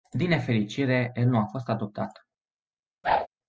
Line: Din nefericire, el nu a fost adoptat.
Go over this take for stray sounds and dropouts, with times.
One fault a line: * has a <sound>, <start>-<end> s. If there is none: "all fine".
* has a whoosh, 3.0-3.3 s